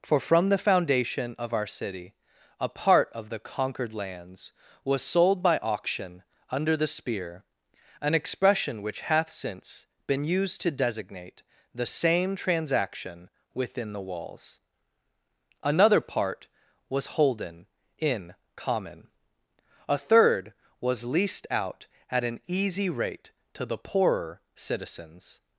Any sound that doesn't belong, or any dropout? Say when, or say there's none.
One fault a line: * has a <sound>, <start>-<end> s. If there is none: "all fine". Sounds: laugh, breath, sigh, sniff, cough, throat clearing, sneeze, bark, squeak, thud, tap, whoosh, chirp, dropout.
all fine